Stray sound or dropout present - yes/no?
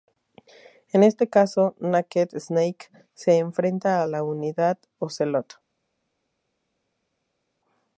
no